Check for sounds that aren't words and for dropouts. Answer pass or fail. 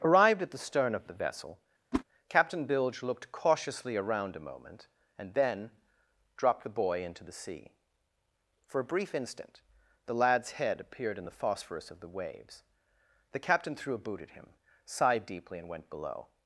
fail